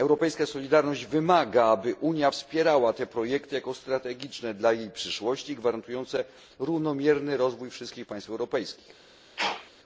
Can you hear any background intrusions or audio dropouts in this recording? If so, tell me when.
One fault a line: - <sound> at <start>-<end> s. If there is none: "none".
- sneeze at 9.4-9.7 s